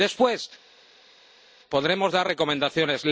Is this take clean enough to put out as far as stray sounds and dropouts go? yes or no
yes